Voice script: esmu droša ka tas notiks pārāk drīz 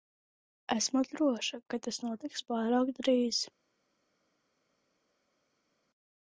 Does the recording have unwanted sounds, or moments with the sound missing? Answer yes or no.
no